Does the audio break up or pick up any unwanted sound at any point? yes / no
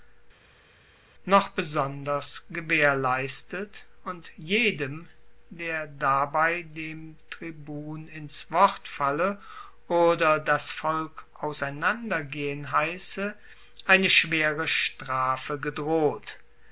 no